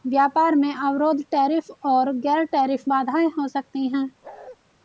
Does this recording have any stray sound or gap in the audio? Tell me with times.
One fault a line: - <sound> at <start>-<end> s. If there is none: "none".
- bark at 4.2-4.6 s